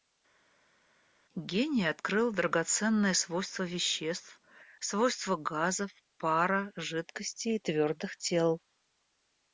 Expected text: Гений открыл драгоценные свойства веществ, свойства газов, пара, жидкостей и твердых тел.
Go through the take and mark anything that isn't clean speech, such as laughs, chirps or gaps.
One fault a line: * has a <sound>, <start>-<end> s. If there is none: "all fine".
all fine